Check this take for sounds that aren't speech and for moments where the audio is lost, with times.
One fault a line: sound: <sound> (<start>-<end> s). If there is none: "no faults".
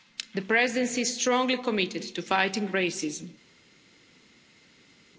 no faults